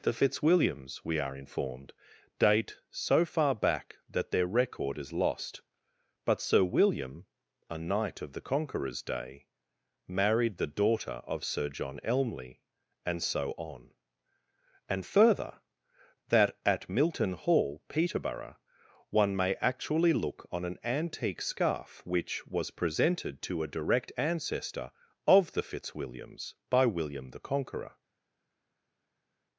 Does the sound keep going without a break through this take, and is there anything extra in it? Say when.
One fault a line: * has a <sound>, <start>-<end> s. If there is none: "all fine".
all fine